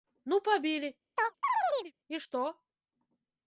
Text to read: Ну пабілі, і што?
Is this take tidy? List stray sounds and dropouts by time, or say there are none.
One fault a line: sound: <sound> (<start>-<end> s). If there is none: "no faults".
sound: chirp (1.2-1.9 s)